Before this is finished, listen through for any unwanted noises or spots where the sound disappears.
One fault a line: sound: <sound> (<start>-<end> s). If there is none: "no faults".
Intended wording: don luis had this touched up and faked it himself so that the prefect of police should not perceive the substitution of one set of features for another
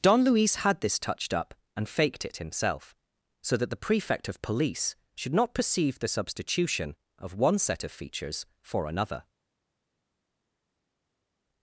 no faults